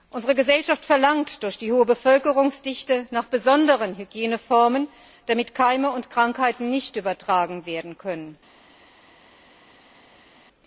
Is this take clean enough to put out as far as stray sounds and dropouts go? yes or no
yes